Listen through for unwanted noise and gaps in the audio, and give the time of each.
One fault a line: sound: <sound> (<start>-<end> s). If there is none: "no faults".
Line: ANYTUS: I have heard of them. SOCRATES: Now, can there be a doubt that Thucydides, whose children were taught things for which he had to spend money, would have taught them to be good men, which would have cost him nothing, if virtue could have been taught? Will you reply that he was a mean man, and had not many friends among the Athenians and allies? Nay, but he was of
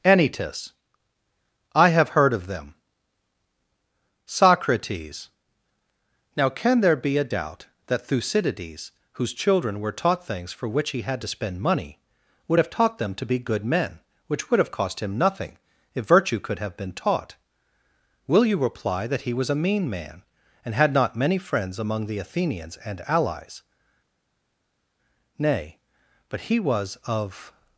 no faults